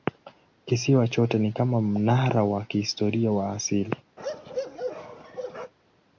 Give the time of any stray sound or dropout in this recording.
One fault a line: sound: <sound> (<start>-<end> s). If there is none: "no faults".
sound: bark (4.2-5.7 s)